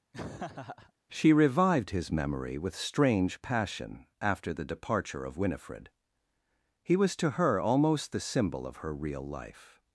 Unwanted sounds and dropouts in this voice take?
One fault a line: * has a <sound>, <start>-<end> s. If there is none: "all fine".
* has a laugh, 0.1-0.9 s